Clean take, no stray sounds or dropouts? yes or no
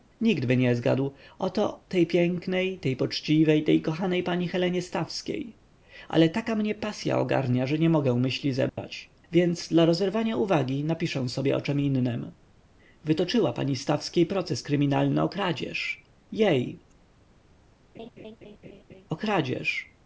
no